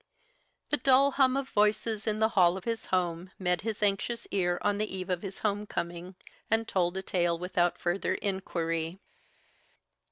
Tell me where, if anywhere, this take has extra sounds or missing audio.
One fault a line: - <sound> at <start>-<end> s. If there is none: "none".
none